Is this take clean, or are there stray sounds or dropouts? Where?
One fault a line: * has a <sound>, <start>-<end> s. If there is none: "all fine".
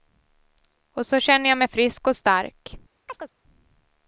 * has a chirp, 3.1-3.3 s